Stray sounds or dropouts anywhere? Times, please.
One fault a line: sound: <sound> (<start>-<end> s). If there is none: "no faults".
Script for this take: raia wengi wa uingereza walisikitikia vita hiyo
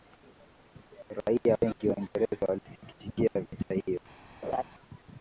sound: laugh (4.4-4.6 s)